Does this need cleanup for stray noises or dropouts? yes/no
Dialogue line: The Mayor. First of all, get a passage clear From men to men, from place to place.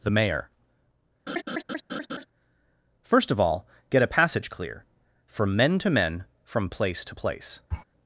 yes